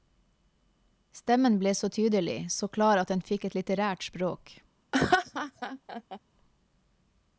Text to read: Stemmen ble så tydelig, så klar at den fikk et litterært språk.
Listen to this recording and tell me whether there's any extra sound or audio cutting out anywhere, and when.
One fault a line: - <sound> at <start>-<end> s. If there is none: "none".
- laugh at 4.9-6.2 s